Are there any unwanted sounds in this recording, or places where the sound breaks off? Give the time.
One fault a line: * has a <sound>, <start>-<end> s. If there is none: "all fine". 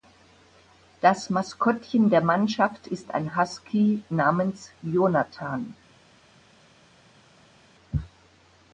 all fine